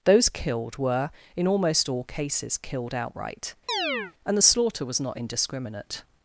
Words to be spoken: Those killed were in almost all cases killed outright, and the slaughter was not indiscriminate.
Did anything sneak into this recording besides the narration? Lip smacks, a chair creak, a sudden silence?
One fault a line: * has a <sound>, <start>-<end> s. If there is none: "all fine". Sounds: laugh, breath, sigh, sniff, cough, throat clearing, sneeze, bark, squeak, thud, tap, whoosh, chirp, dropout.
* has a chirp, 3.7-4.1 s